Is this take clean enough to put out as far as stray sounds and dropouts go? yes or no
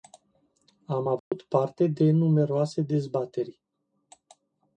no